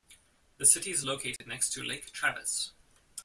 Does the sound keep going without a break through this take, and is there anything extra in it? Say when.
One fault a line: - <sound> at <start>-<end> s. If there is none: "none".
- dropout at 1.4-1.4 s